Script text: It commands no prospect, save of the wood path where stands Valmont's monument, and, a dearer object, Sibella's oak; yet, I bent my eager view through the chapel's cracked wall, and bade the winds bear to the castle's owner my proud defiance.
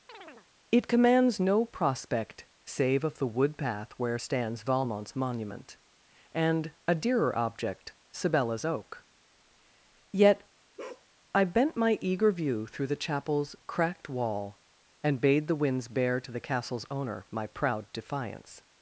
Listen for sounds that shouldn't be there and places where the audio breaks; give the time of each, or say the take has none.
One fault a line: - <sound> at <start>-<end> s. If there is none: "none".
- chirp at 0.1-0.5 s
- bark at 10.8-11.1 s